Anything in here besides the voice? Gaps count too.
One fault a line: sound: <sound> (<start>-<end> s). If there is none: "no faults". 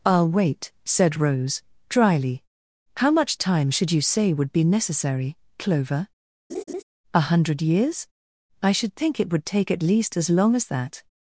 sound: laugh (6.5-6.8 s)